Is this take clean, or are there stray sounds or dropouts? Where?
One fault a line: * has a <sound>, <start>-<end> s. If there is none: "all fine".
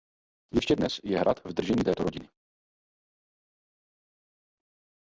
all fine